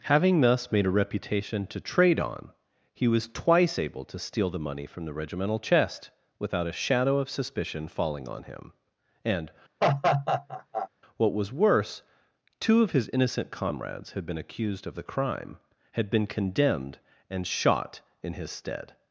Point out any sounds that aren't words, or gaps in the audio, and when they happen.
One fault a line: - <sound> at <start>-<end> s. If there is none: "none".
- laugh at 9.8-10.9 s